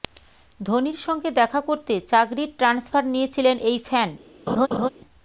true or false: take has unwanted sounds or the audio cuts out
true